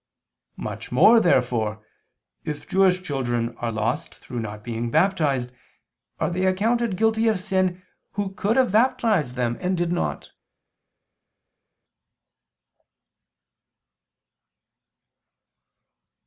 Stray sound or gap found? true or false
false